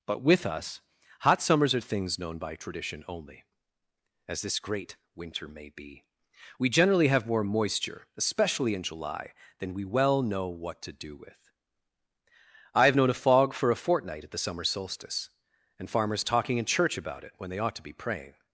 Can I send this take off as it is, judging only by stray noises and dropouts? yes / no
yes